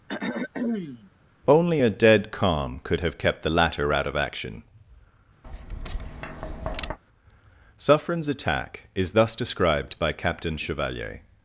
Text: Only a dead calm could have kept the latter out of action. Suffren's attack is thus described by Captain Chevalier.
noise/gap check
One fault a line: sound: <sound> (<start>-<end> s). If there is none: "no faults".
sound: throat clearing (0.1-1.1 s)
sound: tap (5.4-7.0 s)